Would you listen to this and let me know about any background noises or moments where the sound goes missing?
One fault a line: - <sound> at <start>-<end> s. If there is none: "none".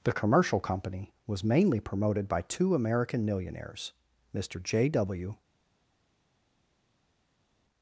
none